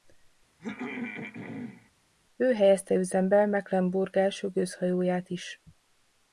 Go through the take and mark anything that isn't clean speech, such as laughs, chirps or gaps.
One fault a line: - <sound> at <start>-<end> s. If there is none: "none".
- throat clearing at 0.6-1.9 s